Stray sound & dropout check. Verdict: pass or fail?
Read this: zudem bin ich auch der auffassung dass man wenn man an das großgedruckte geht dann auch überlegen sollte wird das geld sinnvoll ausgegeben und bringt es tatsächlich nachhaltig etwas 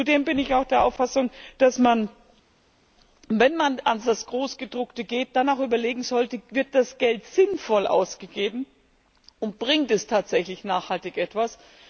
pass